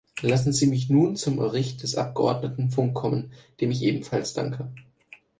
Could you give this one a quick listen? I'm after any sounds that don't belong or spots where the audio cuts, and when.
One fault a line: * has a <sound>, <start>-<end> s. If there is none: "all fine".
all fine